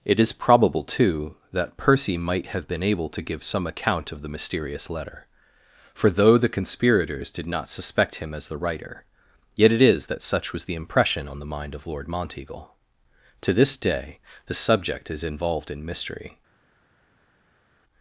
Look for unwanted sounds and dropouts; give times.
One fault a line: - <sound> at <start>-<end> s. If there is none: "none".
none